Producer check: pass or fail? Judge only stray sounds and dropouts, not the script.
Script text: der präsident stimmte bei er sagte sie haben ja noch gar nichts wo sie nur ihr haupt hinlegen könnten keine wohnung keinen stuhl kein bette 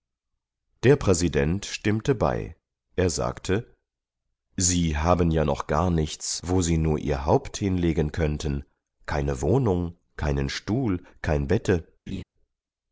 fail